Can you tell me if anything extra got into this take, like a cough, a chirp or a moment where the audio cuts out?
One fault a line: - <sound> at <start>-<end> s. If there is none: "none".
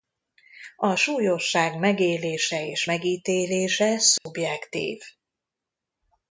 - dropout at 4.2-4.3 s